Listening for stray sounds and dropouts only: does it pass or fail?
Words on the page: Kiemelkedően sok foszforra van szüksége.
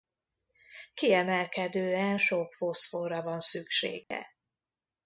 fail